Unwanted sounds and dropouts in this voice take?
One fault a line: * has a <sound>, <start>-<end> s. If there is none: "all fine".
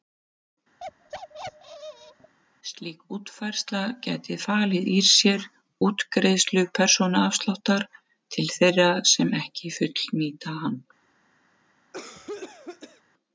* has a bark, 0.8-2.3 s
* has a cough, 11.9-13.0 s